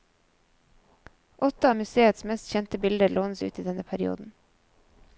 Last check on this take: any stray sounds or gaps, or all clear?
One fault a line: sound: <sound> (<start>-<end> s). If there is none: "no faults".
no faults